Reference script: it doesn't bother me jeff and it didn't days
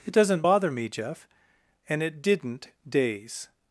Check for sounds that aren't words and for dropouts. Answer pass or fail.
pass